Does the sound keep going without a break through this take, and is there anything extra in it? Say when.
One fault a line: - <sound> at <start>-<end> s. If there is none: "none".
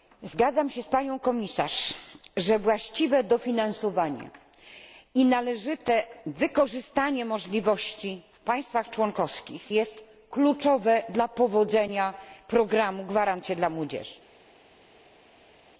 none